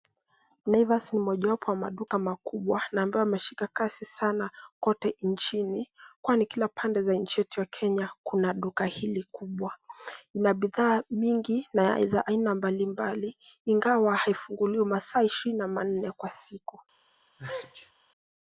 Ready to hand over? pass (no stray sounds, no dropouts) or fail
fail